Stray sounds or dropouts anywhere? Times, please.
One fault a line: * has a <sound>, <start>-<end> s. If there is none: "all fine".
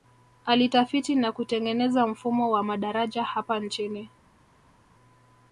all fine